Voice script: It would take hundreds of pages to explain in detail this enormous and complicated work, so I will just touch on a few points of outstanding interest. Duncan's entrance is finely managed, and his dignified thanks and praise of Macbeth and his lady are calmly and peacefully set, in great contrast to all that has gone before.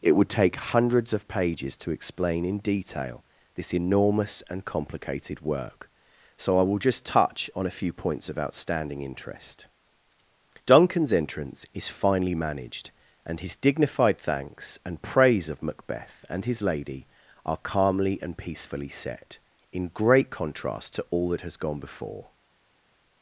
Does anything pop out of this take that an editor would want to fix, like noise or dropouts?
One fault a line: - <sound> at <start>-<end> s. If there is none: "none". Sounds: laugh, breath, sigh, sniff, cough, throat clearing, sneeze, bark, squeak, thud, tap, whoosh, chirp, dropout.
none